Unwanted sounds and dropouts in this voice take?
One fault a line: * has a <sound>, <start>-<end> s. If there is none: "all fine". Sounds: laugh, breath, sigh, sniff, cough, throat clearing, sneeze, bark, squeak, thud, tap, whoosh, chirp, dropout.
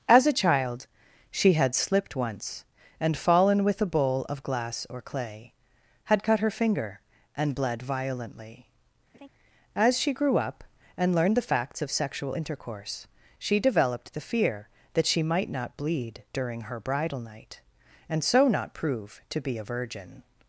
* has a laugh, 9.1-9.3 s